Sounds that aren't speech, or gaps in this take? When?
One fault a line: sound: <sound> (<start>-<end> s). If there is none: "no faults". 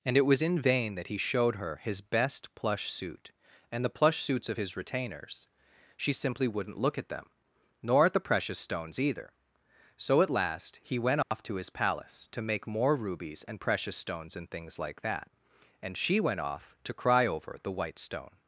sound: dropout (11.2-11.3 s)